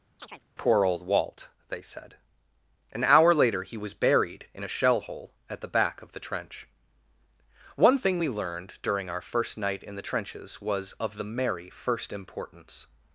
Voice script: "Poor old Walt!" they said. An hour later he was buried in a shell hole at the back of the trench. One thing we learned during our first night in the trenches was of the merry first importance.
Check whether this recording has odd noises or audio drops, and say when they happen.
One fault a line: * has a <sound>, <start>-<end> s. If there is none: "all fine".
* has a chirp, 0.2-0.4 s